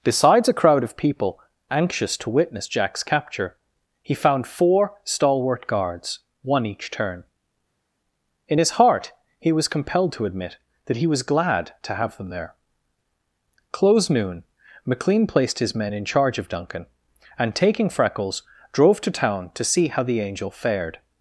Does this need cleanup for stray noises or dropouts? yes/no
no